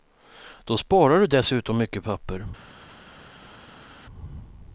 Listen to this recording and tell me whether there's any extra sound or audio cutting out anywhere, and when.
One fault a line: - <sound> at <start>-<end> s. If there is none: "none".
none